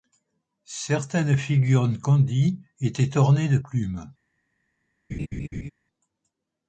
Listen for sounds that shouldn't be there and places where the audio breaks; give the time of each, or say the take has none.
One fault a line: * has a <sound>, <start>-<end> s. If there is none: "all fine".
* has a laugh, 5.1-5.7 s